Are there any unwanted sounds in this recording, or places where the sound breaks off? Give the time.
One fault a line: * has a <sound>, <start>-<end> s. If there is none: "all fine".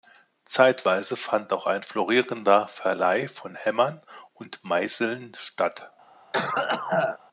* has a cough, 6.3-7.2 s